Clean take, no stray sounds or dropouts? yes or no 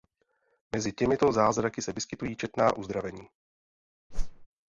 no